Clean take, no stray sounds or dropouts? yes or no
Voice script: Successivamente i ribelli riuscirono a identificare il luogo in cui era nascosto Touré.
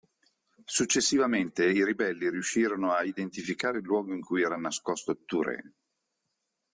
yes